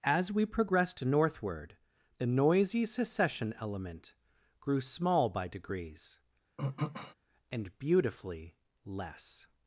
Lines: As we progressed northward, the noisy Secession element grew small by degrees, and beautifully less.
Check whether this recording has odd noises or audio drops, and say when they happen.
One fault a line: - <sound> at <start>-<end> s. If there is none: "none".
- throat clearing at 6.6-7.1 s